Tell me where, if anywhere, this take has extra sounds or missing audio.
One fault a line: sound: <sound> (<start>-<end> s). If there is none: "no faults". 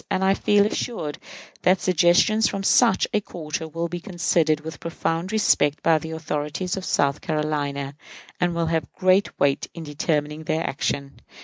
no faults